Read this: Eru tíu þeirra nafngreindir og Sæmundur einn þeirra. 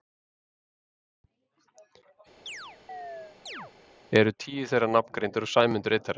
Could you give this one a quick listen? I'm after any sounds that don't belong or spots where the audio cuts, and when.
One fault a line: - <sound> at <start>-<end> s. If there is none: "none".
- chirp at 2.5-3.7 s